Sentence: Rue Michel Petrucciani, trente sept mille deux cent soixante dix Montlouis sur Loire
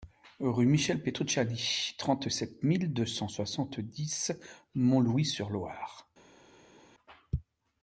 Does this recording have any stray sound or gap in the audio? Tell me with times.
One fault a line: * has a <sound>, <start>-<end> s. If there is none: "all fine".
all fine